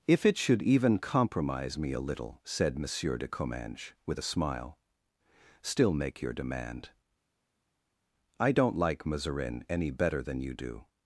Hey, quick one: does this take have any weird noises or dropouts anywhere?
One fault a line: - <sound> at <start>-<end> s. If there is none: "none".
none